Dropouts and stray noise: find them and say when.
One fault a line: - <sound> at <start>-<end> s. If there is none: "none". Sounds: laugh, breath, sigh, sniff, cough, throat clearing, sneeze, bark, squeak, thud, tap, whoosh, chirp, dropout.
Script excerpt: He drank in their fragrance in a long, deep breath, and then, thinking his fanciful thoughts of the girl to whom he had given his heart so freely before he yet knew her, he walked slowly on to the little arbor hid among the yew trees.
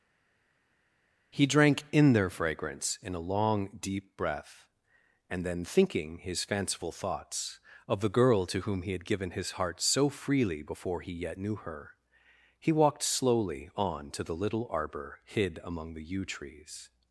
none